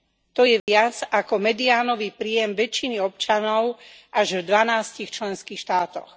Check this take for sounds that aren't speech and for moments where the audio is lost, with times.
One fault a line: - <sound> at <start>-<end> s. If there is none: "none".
- dropout at 0.6-0.7 s